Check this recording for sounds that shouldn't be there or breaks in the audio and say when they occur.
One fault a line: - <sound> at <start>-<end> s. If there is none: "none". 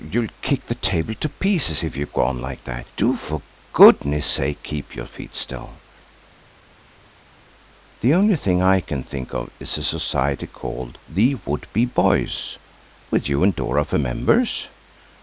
none